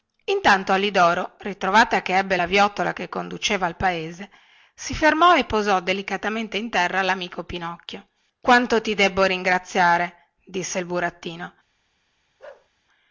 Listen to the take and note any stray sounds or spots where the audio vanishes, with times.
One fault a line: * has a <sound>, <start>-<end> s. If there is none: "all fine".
* has a bark, 12.4-12.7 s